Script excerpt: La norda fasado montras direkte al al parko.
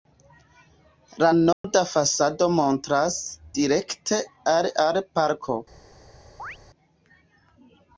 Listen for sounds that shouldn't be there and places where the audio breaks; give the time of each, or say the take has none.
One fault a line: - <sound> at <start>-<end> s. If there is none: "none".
- dropout at 1.5-1.6 s
- chirp at 6.4-6.6 s